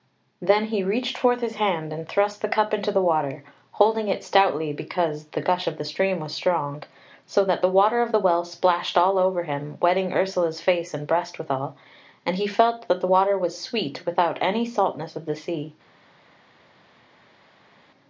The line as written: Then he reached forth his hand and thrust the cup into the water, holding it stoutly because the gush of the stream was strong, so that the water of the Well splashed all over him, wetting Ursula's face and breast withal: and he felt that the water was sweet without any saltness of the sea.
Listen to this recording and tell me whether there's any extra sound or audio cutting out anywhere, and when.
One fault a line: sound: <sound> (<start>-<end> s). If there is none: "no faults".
no faults